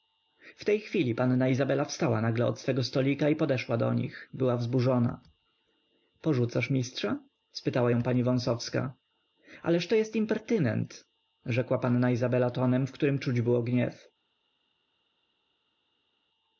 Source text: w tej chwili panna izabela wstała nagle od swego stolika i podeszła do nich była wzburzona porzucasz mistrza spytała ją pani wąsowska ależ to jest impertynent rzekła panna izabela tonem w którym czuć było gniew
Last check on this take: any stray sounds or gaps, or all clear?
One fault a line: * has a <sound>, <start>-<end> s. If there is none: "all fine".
all fine